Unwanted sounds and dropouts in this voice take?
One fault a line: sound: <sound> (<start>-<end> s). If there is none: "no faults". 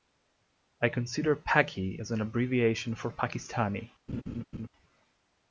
sound: laugh (4.1-4.7 s)